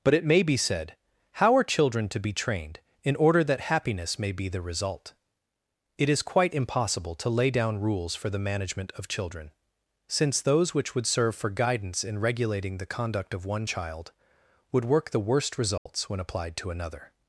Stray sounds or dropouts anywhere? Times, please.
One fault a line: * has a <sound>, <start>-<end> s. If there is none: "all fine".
* has a dropout, 15.8-15.9 s